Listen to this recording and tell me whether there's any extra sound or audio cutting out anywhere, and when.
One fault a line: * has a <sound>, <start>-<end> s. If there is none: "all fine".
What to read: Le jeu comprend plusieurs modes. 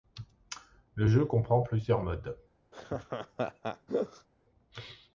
* has a laugh, 2.7-4.3 s